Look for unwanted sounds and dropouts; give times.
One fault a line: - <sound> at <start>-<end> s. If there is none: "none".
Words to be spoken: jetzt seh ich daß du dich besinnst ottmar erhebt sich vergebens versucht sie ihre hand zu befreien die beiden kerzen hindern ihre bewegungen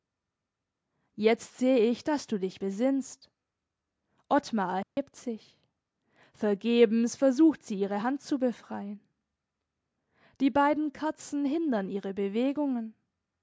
- dropout at 4.8-5.0 s